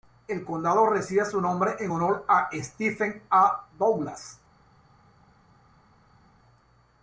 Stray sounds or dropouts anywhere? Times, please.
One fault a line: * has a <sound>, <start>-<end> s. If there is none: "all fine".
all fine